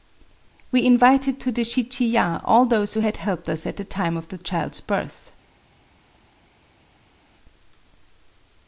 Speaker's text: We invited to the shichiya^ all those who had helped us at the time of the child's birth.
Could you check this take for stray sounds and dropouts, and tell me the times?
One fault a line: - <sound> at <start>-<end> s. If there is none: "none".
none